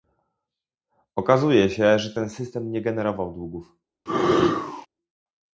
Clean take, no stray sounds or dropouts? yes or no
no